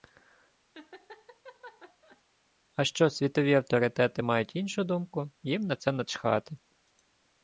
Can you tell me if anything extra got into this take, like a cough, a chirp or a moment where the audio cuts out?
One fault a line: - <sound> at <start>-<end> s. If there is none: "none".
- laugh at 0.7-2.2 s